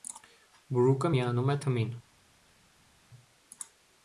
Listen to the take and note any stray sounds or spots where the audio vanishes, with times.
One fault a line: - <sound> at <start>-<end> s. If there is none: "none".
none